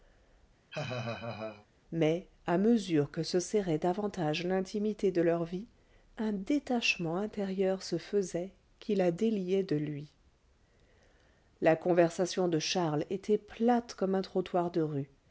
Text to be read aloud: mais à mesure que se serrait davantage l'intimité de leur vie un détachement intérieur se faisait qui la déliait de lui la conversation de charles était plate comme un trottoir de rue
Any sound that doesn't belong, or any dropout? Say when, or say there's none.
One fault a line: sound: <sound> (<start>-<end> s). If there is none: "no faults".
sound: laugh (0.7-1.7 s)